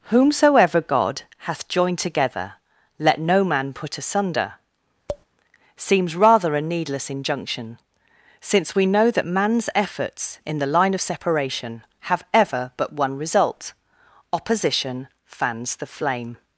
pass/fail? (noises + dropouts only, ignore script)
fail